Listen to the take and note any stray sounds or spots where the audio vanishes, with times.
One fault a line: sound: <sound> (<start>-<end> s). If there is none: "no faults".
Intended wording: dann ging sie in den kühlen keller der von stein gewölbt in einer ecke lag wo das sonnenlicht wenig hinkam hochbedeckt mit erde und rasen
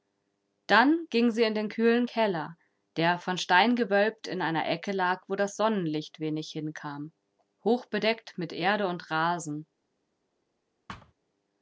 sound: thud (10.9-11.1 s)